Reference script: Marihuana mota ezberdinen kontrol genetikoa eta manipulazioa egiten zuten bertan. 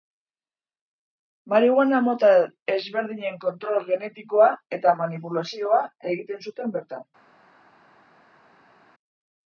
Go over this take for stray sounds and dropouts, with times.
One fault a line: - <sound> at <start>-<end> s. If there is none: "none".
none